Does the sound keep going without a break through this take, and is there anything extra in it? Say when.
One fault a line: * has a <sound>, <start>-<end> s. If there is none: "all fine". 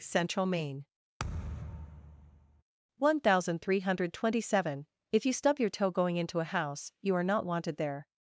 * has a thud, 1.2-2.6 s